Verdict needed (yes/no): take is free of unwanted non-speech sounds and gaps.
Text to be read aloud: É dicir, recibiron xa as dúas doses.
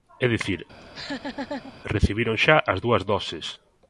no